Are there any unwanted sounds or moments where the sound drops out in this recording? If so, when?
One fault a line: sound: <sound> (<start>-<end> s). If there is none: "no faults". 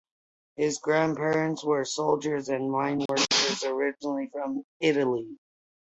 sound: dropout (3.1-3.1 s)